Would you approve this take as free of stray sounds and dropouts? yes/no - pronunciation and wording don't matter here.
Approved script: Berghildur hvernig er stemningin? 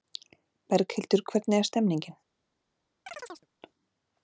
no